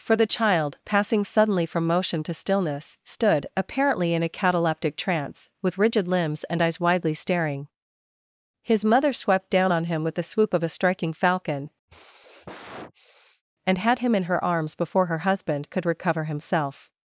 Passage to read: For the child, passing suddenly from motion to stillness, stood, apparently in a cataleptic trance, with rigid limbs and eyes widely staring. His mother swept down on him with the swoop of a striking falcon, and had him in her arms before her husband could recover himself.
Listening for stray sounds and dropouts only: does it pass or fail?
fail